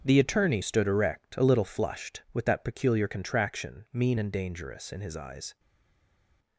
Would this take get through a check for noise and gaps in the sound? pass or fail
pass